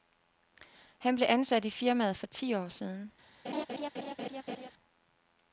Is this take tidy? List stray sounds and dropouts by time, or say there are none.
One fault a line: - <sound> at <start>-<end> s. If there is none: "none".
- laugh at 3.4-4.7 s